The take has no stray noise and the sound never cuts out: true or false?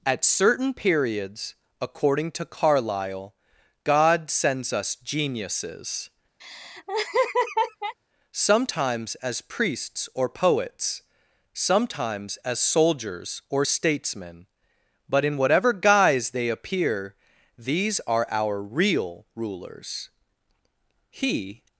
false